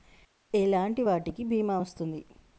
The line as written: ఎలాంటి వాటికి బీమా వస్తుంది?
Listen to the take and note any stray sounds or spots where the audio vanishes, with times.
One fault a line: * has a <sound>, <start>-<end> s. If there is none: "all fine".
all fine